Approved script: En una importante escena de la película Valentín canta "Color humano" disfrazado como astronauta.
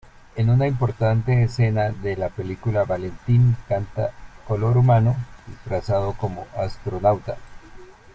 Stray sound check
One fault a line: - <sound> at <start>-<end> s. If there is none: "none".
none